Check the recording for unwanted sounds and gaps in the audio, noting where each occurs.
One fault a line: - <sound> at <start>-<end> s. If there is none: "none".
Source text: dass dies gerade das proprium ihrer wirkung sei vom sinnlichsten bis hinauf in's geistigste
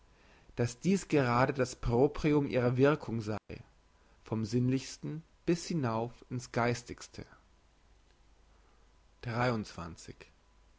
- dropout at 3.4-3.5 s